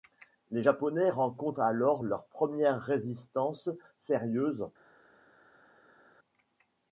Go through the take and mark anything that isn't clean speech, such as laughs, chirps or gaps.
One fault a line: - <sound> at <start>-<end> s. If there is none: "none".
none